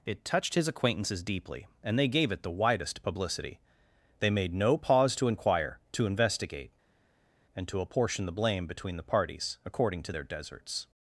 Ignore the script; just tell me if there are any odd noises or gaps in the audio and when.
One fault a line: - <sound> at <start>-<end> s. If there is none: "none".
none